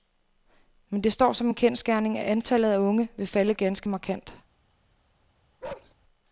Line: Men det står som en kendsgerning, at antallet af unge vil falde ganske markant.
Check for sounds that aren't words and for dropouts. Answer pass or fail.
fail